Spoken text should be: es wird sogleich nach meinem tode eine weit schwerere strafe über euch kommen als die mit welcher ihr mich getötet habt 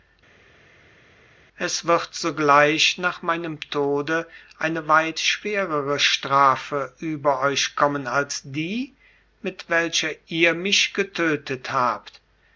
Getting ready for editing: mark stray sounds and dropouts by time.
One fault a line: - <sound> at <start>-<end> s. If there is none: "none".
none